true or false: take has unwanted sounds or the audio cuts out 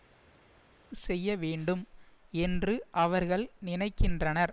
false